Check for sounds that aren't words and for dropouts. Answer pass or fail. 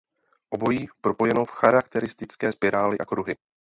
pass